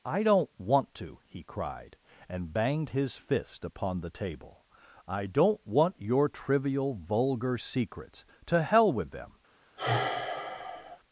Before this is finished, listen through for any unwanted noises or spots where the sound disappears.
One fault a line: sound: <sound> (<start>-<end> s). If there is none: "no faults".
sound: sigh (9.8-11.0 s)